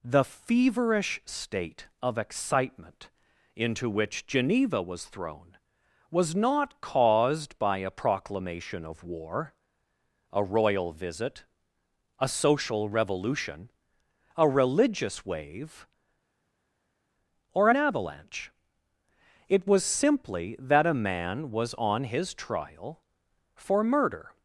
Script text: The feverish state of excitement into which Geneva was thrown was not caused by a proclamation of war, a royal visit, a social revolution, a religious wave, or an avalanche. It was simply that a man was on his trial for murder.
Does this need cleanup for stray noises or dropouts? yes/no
no